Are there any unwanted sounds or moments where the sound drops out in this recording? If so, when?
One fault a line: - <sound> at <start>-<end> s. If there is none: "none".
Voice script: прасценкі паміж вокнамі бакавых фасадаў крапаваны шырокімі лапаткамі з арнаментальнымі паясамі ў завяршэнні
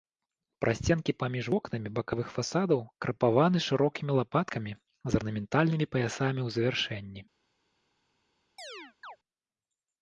- chirp at 8.6-9.2 s